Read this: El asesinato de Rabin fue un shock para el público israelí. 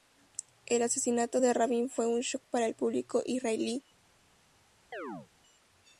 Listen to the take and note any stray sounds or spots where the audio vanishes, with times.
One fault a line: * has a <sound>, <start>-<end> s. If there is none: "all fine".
* has a chirp, 4.9-5.3 s